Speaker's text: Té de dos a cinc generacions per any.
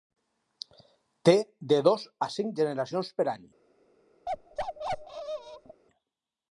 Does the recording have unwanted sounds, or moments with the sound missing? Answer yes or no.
yes